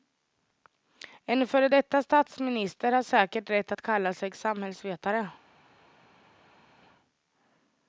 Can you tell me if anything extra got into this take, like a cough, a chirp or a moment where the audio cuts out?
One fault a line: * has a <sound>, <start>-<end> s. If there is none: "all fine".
all fine